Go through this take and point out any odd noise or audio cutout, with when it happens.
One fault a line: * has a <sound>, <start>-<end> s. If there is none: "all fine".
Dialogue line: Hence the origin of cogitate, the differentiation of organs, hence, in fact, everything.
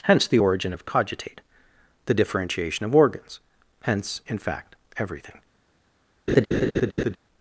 * has a laugh, 6.3-7.2 s